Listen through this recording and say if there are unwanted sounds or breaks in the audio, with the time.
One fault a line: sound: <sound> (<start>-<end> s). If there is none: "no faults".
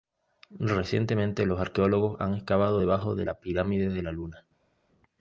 no faults